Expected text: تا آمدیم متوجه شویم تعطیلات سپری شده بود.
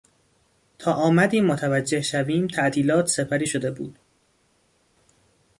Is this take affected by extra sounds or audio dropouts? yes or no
no